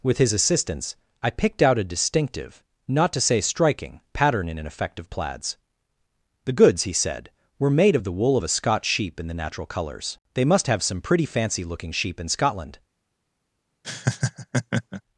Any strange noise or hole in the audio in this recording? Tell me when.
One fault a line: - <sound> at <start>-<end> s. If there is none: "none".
- laugh at 13.8-15.0 s